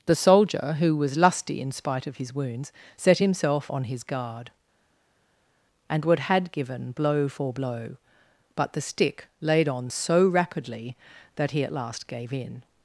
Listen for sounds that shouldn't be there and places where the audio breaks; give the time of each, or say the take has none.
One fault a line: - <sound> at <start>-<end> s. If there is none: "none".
none